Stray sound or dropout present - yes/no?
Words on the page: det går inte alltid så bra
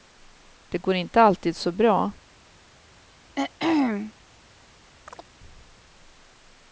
yes